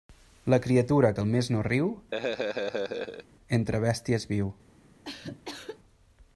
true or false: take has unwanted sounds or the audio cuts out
true